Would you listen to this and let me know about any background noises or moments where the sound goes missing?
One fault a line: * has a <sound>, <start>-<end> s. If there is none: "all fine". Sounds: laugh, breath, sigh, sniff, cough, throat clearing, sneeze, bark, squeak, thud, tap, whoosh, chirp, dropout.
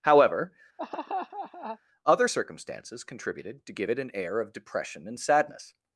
* has a laugh, 0.8-1.8 s